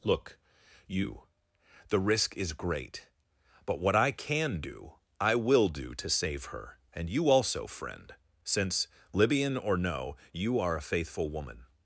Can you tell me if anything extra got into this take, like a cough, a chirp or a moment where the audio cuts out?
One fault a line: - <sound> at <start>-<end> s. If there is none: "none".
none